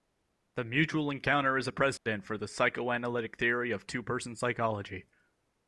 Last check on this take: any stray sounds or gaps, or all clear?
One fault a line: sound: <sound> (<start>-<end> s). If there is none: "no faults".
sound: dropout (2.0-2.1 s)